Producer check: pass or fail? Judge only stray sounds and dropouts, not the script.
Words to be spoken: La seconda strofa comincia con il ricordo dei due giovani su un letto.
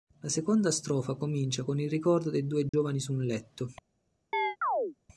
fail